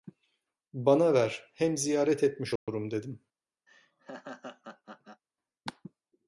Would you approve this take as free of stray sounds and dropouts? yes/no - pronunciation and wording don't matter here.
no